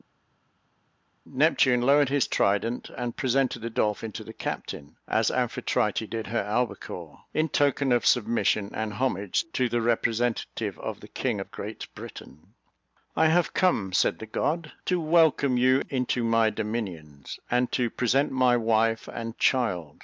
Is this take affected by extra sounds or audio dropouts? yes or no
no